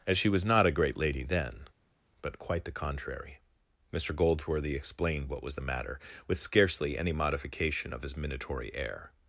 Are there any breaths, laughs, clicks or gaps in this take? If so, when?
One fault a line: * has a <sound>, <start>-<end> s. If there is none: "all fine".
all fine